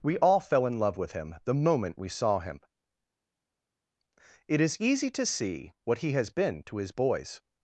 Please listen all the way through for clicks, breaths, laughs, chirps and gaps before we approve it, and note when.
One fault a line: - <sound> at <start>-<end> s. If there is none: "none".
none